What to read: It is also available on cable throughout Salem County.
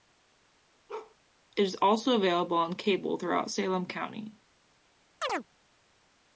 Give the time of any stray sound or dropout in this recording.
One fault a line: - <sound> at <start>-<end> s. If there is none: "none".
- bark at 0.9-1.2 s
- chirp at 5.2-5.5 s